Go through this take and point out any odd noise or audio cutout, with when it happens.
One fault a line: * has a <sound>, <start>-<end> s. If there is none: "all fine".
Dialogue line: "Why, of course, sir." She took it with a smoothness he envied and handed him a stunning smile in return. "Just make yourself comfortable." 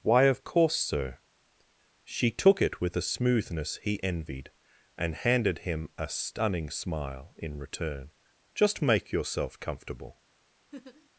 * has a laugh, 10.7-11.1 s